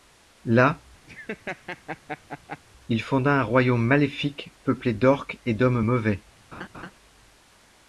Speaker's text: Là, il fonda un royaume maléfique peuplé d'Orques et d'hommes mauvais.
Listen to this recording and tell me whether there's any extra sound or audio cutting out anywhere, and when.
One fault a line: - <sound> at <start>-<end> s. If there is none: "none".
- laugh at 1.1-2.6 s
- laugh at 6.5-6.9 s